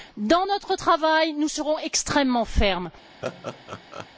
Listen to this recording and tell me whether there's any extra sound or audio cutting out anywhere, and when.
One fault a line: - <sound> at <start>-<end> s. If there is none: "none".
- laugh at 3.2-4.1 s